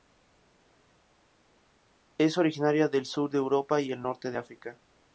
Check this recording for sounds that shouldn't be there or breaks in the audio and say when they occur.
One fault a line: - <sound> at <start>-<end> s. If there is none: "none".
none